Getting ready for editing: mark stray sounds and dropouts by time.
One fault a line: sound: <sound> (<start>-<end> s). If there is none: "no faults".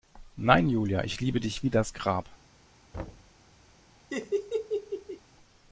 sound: thud (2.9-3.3 s)
sound: laugh (4.1-5.2 s)